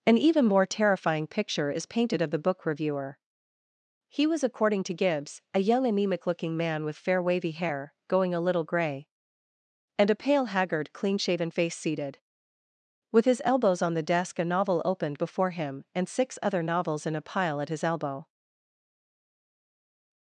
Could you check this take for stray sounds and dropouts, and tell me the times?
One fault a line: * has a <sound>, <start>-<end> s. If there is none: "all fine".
all fine